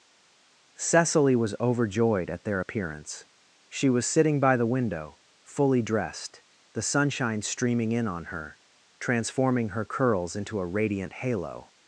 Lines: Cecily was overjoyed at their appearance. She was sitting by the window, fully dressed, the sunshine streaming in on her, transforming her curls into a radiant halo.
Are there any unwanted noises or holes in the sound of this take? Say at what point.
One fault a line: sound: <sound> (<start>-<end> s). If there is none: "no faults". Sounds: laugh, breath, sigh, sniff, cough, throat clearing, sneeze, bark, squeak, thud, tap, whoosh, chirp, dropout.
no faults